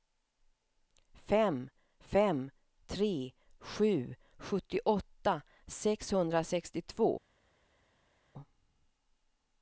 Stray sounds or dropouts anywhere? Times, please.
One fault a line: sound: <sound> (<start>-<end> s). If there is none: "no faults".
no faults